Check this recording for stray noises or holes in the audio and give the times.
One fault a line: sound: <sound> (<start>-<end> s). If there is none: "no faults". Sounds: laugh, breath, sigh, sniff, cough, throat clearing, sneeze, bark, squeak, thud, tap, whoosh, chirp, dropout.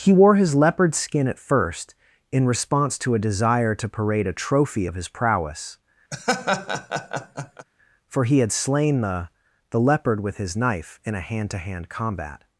sound: laugh (6.1-7.7 s)